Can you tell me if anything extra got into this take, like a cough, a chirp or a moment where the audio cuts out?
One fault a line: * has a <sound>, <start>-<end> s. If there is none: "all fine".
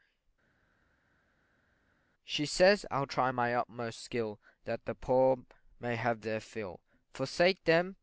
all fine